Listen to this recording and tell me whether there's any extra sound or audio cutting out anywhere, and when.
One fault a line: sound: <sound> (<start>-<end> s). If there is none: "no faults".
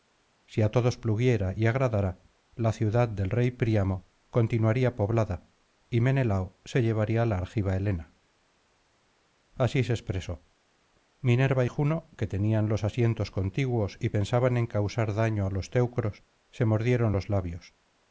no faults